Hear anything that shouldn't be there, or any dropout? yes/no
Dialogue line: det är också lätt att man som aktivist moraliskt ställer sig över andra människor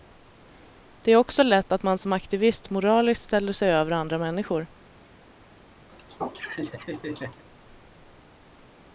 yes